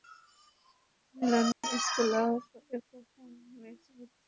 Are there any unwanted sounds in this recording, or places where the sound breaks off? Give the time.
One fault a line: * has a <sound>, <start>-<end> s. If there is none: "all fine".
* has a dropout, 1.5-1.6 s